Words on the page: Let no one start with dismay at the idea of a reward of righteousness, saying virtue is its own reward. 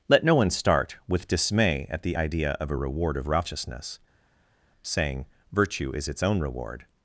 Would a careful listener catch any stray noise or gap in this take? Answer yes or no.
no